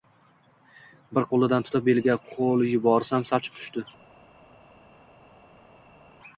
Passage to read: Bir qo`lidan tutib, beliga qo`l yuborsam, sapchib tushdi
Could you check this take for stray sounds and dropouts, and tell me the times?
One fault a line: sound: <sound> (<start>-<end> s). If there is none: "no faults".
no faults